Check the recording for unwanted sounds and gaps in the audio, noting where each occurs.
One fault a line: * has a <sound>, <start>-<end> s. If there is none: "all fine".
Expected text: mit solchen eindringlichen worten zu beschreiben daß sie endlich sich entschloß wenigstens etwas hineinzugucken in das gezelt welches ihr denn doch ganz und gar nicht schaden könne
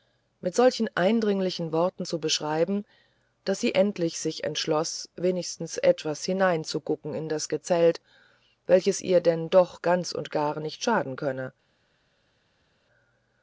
all fine